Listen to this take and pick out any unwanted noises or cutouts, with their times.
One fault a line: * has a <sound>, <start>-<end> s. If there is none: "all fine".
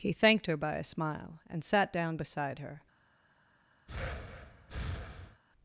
* has a breath, 3.9-5.4 s